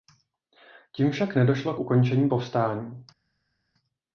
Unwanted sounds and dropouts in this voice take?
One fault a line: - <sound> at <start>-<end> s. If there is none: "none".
none